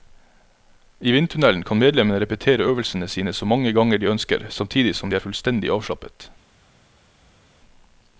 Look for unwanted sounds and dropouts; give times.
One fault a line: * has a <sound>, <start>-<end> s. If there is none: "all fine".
all fine